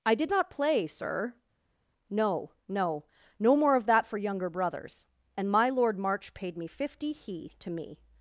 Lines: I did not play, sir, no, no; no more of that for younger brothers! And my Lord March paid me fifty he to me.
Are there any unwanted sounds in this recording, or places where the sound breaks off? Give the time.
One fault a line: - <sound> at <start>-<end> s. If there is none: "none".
none